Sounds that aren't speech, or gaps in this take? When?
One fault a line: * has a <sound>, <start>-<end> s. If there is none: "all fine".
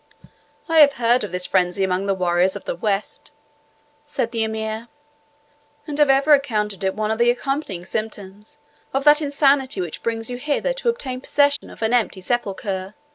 * has a dropout, 11.6-11.6 s